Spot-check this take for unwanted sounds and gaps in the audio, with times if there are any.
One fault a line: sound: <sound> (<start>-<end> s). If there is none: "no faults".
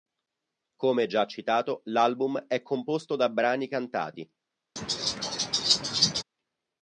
sound: laugh (4.8-6.2 s)